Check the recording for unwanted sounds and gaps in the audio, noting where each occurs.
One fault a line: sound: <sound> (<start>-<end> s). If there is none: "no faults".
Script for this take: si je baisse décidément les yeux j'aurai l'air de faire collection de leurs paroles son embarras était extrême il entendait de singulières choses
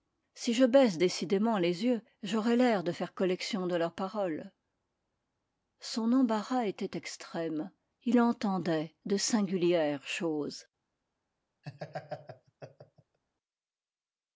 sound: laugh (11.6-13.2 s)